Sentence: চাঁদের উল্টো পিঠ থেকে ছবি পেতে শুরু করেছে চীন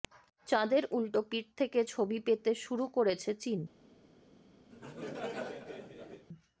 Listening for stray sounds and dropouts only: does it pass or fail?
fail